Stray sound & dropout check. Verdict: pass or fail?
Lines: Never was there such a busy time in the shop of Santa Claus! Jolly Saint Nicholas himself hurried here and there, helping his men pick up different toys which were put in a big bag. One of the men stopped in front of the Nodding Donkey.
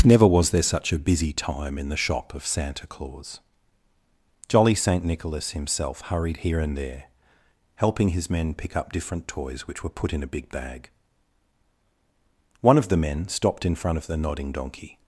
pass